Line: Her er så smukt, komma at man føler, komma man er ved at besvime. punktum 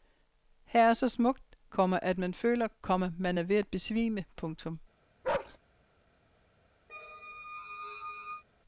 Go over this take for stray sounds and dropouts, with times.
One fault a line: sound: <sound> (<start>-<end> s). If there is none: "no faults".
sound: bark (5.2-5.6 s)
sound: squeak (6.9-8.4 s)